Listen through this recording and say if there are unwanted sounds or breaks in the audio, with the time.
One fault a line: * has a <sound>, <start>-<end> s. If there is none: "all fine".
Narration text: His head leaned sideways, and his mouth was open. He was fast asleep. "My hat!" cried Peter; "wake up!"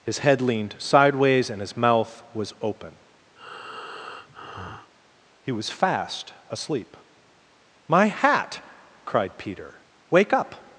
* has a breath, 3.4-4.9 s